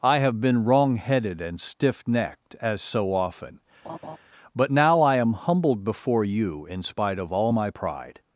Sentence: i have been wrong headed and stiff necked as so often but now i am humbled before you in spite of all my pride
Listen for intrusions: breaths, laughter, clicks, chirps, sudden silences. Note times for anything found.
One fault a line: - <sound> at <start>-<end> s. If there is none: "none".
- laugh at 3.8-4.2 s